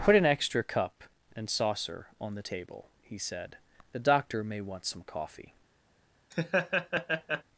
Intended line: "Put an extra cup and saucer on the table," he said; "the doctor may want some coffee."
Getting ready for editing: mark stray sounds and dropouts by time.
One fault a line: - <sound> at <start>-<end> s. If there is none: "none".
- laugh at 6.3-7.4 s